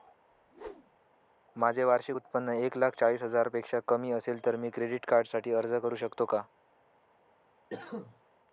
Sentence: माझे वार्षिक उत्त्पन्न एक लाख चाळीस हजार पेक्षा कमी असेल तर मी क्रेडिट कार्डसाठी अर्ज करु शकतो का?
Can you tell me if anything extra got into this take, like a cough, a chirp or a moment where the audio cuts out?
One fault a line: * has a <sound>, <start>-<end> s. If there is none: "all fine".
* has a whoosh, 0.3-1.0 s
* has a cough, 7.7-8.2 s